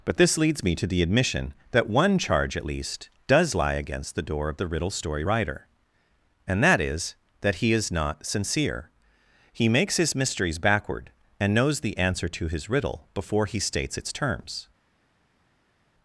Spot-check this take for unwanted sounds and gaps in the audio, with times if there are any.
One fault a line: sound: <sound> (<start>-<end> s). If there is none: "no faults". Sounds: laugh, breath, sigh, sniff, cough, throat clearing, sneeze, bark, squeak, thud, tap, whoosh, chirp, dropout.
no faults